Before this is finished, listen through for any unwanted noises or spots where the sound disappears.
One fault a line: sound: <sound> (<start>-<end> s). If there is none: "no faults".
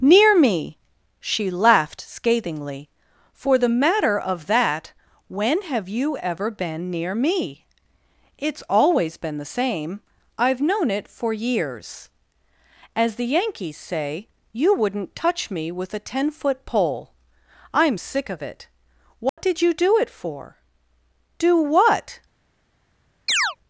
sound: dropout (19.3-19.4 s)
sound: chirp (23.3-23.6 s)